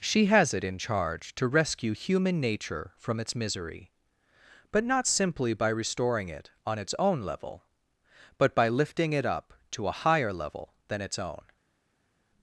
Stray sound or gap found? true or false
false